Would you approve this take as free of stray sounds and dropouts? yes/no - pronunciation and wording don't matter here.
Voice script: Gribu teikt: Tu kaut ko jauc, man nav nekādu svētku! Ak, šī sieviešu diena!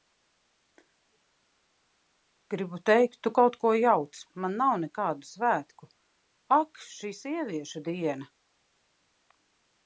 yes